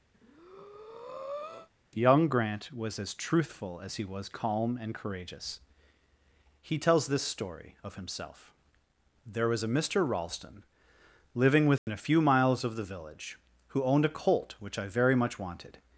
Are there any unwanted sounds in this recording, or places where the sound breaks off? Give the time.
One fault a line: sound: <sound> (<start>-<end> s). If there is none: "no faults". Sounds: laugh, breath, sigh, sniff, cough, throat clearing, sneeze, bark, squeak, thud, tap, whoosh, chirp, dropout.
sound: breath (0.1-1.7 s)
sound: dropout (11.8-11.9 s)